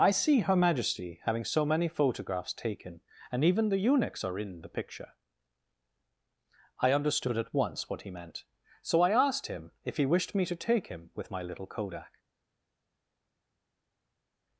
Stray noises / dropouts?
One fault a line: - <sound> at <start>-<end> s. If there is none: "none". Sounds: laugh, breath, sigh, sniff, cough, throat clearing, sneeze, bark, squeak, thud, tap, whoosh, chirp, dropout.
none